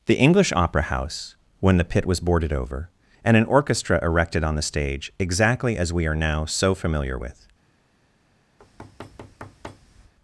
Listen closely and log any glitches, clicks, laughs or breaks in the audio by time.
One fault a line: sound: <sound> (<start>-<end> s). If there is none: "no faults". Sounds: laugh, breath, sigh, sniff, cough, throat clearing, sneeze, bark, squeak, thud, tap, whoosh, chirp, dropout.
sound: thud (8.6-10.1 s)